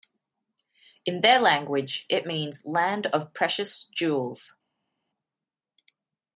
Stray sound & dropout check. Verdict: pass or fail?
pass